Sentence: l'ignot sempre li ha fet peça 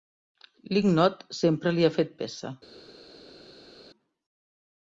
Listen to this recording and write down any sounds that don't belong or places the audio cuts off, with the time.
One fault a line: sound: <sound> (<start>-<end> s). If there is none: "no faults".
no faults